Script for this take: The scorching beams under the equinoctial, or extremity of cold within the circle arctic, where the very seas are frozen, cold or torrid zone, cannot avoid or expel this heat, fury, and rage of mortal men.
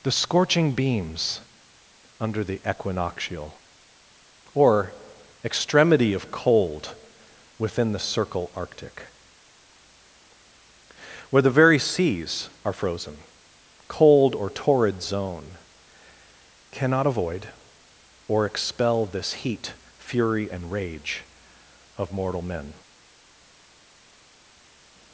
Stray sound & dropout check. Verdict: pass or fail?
pass